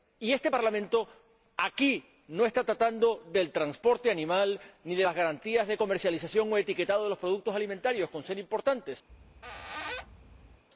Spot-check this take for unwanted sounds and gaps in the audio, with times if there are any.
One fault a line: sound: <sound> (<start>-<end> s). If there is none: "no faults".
sound: squeak (9.1-10.6 s)